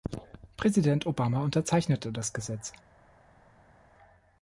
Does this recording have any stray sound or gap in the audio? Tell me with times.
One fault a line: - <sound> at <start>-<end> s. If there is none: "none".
none